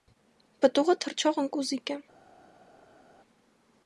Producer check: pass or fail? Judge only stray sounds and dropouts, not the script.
pass